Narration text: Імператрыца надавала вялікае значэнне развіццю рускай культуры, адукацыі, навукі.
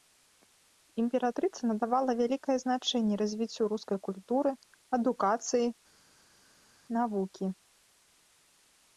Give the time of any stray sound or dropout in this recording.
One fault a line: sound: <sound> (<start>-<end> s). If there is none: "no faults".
no faults